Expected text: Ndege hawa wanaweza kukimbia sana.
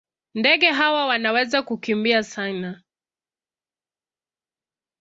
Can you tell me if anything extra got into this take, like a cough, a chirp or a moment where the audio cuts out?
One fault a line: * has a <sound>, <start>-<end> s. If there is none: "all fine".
all fine